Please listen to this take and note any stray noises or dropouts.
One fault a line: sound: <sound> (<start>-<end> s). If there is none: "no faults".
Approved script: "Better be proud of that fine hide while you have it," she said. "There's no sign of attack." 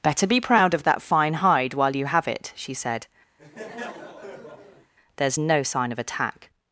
sound: laugh (3.4-4.9 s)